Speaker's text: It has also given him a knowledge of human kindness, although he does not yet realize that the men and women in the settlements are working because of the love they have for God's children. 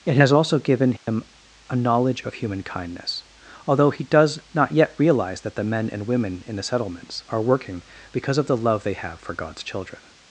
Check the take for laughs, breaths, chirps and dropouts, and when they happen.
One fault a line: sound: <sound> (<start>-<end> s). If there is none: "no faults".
sound: dropout (1.0-1.1 s)